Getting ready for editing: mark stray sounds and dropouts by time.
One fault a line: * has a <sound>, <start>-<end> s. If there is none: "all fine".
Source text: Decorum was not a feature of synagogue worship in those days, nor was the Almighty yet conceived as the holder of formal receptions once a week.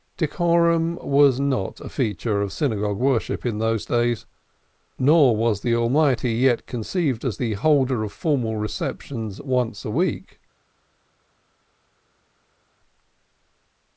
all fine